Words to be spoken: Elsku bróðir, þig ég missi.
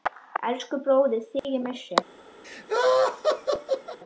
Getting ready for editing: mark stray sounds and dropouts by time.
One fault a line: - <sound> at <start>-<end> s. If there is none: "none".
- dropout at 1.4-1.4 s
- laugh at 2.4-4.0 s